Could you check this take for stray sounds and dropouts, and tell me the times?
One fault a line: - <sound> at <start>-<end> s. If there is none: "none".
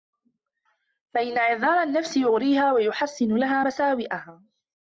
none